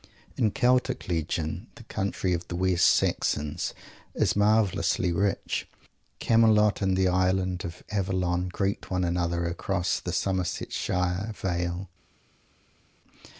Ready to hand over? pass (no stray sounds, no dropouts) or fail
pass